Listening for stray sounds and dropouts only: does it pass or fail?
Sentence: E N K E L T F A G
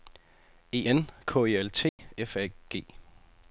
fail